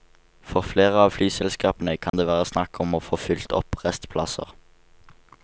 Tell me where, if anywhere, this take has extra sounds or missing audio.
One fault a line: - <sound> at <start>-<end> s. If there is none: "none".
- dropout at 2.1-2.1 s